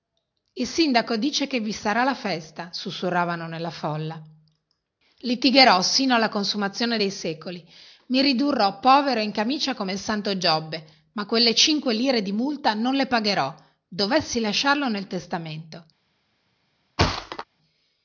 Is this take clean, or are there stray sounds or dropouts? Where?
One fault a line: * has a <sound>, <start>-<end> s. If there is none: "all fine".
* has a thud, 17.0-17.4 s